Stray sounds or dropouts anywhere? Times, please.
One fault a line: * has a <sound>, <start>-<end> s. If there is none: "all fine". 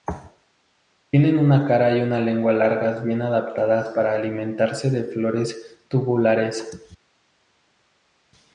all fine